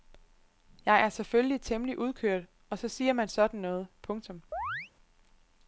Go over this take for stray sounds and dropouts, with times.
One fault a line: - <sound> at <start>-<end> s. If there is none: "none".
- chirp at 4.5-4.9 s